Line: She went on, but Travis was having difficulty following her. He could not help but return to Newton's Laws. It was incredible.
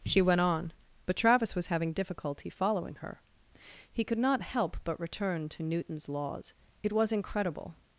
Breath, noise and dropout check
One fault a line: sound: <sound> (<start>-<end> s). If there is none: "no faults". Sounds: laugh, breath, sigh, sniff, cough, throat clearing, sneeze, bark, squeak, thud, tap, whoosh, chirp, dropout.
no faults